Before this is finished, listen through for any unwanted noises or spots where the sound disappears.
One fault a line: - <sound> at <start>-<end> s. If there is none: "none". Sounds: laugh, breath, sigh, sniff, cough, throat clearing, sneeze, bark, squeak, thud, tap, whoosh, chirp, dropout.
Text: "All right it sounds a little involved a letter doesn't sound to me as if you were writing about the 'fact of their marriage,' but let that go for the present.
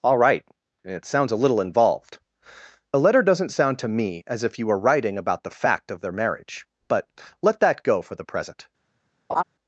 - laugh at 9.3-9.4 s